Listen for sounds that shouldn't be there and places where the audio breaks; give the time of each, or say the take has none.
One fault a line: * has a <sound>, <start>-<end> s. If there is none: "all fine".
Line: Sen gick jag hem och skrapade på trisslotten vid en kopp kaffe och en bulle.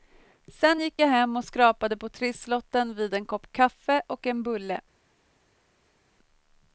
all fine